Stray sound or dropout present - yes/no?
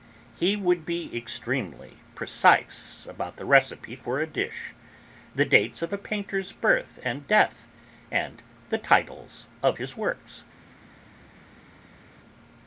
no